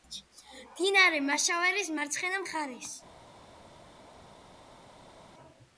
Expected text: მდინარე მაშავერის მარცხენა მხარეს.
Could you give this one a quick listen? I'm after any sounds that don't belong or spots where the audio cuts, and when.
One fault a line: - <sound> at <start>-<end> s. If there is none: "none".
none